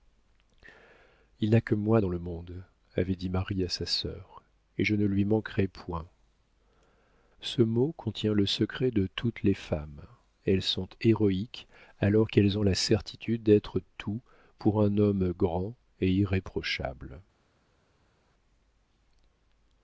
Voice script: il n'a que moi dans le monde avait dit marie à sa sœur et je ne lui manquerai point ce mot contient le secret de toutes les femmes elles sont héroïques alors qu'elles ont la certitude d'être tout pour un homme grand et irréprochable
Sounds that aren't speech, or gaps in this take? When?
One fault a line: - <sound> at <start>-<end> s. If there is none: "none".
none